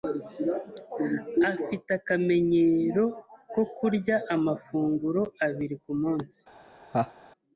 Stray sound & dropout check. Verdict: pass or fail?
fail